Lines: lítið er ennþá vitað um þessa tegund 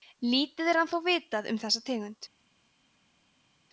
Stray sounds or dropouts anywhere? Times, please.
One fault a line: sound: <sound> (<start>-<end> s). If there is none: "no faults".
no faults